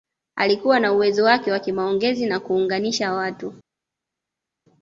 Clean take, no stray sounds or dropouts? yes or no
yes